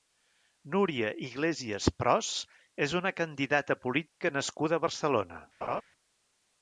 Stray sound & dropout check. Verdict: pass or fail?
fail